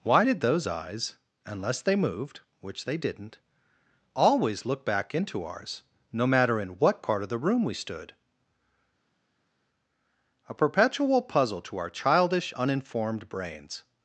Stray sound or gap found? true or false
false